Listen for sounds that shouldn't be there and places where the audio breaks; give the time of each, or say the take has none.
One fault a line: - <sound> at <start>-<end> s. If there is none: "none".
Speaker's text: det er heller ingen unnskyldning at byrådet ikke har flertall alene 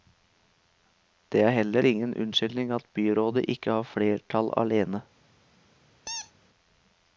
- squeak at 6.1-6.3 s